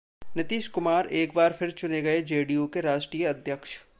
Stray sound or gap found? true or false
false